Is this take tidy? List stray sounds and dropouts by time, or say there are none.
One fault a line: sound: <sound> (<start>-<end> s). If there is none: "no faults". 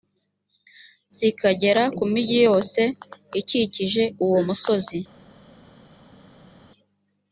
no faults